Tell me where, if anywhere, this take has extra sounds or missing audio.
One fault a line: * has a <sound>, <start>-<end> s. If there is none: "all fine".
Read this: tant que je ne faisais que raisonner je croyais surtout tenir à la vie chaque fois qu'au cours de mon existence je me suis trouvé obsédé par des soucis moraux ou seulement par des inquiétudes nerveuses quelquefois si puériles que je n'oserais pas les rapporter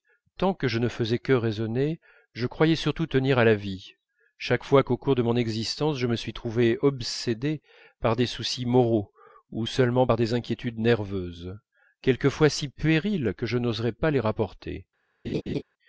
* has a laugh, 15.2-15.6 s